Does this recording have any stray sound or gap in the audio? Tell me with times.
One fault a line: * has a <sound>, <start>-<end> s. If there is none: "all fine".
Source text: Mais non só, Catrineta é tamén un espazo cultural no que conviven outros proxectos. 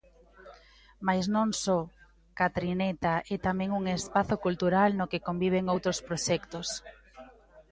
all fine